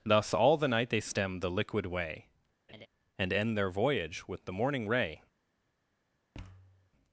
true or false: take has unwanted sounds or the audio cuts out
true